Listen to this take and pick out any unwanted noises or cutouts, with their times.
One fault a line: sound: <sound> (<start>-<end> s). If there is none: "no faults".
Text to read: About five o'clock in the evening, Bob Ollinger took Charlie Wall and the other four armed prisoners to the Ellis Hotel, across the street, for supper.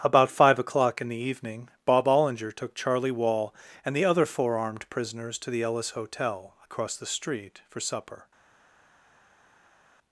no faults